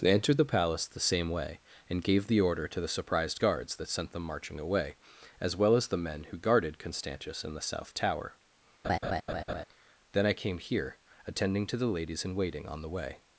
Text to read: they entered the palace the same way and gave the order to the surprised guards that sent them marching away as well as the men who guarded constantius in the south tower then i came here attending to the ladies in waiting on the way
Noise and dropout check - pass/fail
fail